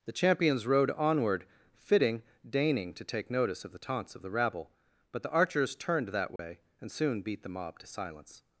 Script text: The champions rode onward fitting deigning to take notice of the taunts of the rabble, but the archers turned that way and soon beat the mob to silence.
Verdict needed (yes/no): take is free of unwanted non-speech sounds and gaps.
no